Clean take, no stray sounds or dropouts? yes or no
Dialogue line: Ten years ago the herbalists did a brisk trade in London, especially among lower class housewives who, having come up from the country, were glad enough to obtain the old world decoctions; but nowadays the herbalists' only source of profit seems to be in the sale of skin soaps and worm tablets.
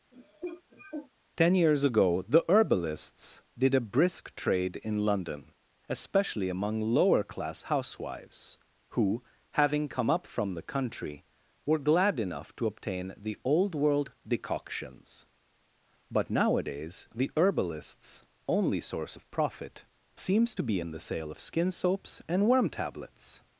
no